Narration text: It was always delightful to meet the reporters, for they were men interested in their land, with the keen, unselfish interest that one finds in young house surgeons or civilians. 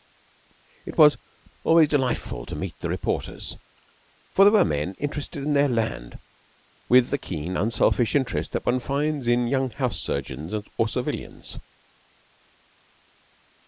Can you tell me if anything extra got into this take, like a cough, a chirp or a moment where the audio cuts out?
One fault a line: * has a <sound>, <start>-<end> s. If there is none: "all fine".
all fine